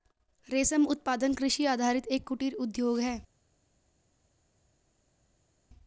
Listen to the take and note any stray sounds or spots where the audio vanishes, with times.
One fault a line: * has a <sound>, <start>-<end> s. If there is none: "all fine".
all fine